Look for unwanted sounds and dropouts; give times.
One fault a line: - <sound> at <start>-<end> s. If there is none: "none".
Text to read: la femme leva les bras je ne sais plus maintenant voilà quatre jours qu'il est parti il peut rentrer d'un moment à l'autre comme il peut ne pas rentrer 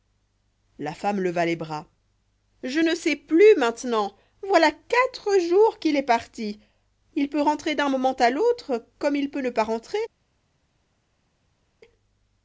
none